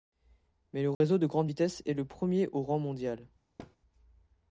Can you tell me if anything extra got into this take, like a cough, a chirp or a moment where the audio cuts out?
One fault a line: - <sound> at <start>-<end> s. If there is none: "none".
- dropout at 0.9-1.0 s
- thud at 3.6-3.8 s